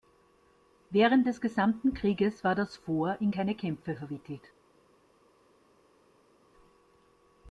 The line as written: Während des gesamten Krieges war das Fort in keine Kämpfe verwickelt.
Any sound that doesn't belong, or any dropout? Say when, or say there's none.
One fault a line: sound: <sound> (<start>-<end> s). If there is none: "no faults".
no faults